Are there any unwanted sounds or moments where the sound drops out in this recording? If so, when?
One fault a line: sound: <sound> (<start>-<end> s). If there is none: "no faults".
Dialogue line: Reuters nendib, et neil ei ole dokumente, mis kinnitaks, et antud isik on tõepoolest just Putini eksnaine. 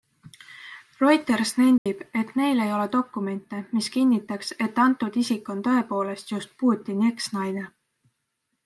sound: dropout (1.8-1.9 s)